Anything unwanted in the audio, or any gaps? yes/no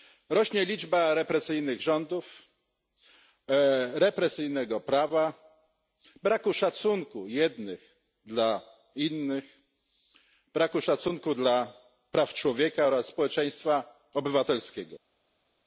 no